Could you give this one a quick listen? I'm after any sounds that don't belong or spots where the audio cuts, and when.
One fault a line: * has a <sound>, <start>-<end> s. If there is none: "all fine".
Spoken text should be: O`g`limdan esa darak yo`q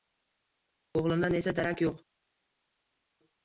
all fine